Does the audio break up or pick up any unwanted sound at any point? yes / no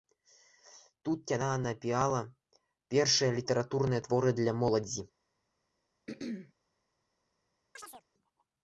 yes